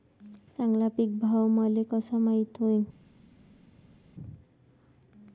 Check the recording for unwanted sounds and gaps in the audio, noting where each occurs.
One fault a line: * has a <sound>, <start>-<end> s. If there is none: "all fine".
all fine